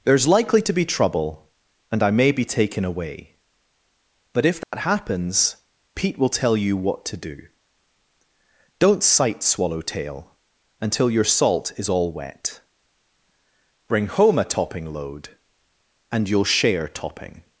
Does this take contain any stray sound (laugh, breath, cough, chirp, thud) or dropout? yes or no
yes